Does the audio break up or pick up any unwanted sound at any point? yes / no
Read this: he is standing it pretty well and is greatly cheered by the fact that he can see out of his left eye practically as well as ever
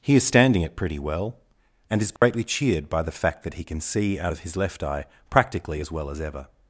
yes